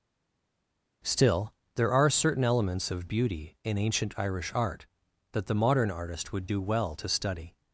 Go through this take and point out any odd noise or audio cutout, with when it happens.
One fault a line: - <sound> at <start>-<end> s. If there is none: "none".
none